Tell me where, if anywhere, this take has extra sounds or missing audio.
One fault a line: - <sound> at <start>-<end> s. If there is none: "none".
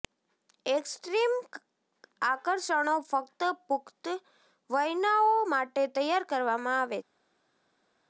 none